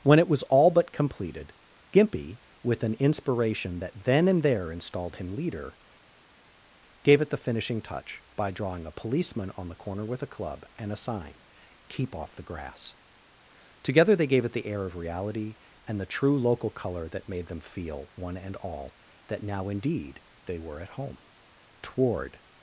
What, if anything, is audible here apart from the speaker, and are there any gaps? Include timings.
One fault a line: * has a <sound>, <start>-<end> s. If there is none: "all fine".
all fine